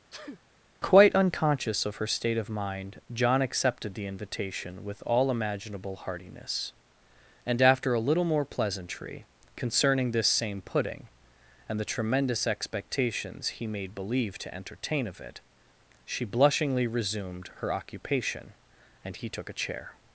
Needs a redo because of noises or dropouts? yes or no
yes